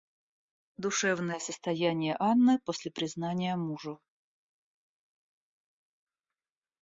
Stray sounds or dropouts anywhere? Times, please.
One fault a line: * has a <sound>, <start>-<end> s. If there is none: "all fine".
all fine